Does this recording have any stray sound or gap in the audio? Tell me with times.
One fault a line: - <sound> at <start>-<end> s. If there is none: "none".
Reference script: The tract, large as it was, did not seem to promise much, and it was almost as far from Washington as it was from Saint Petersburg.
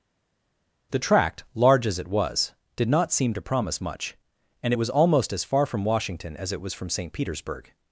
none